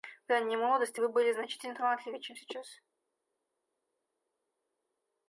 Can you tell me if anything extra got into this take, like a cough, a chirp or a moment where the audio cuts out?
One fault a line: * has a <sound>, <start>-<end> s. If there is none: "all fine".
all fine